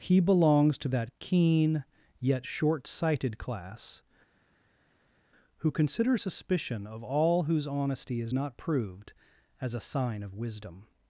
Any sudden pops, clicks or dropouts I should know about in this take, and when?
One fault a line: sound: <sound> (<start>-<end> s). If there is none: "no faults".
no faults